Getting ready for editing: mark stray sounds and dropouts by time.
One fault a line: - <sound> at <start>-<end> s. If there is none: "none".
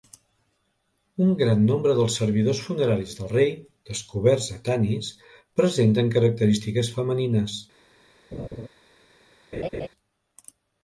- laugh at 8.3-8.7 s
- laugh at 9.5-9.9 s